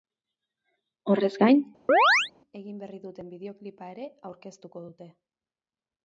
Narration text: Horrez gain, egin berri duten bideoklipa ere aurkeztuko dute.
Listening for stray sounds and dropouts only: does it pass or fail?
fail